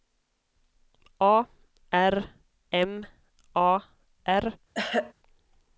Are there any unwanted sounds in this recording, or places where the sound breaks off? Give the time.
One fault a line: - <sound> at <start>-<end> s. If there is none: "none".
- throat clearing at 4.7-5.1 s